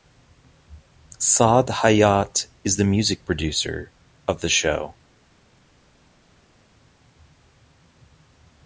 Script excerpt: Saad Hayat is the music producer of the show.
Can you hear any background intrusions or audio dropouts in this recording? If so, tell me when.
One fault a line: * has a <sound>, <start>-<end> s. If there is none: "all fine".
all fine